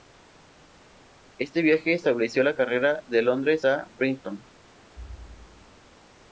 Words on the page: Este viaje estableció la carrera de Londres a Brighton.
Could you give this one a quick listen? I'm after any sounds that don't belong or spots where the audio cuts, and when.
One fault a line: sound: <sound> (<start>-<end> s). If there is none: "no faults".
sound: thud (5.0-5.8 s)